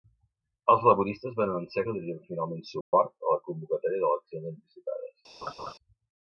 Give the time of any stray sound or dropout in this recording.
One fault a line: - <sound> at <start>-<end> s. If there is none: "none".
- dropout at 2.8-2.9 s
- laugh at 5.4-5.7 s